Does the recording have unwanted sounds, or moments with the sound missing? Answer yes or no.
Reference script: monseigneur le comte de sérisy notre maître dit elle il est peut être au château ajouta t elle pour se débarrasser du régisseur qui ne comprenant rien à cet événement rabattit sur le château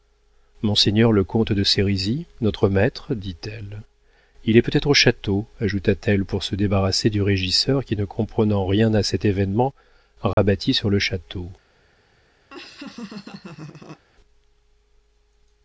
yes